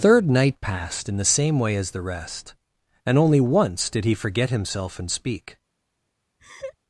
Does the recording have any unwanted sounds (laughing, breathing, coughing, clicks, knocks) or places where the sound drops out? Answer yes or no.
yes